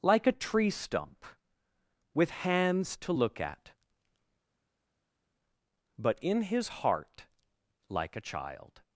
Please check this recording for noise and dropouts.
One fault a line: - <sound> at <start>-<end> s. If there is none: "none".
none